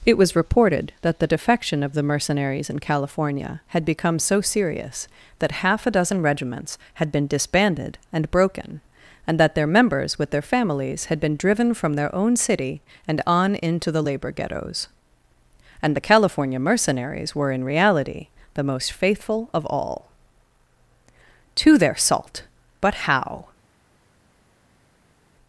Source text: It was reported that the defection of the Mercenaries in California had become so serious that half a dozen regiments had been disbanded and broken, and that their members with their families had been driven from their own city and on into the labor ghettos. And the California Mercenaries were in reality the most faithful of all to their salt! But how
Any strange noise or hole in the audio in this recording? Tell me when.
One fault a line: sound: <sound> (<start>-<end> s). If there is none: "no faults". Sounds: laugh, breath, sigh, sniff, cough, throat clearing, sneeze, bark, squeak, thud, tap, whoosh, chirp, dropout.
no faults